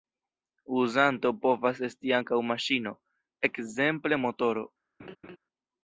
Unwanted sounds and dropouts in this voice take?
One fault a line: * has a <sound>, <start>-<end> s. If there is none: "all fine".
* has a laugh, 5.0-5.4 s